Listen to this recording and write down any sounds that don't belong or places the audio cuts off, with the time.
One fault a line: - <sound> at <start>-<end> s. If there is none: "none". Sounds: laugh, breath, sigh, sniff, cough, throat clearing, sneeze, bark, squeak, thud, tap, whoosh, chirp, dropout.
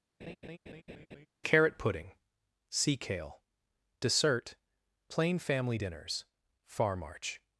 - laugh at 0.2-1.3 s